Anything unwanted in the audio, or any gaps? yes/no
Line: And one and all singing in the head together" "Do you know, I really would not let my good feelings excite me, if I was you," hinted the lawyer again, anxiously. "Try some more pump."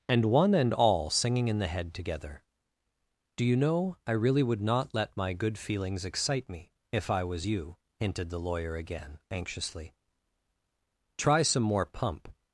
no